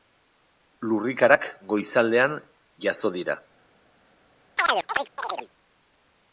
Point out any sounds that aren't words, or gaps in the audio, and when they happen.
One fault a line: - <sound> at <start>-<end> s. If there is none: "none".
- chirp at 4.6-5.5 s